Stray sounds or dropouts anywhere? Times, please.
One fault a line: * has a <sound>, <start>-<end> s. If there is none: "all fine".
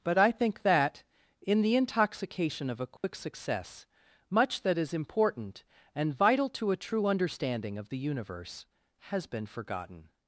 * has a dropout, 3.0-3.0 s